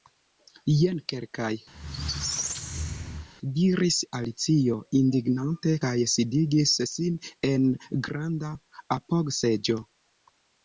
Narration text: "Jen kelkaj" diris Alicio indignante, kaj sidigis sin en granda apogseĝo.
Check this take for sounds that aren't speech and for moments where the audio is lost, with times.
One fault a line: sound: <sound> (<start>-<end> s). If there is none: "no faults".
sound: squeak (1.7-3.3 s)